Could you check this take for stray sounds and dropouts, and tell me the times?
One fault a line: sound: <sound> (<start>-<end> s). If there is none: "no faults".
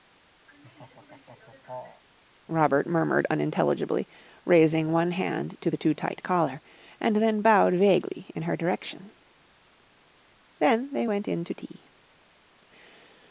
sound: laugh (0.5-2.0 s)